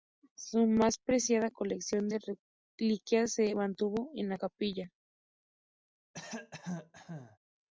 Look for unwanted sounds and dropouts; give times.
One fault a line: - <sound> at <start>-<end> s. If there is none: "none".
- cough at 6.1-7.4 s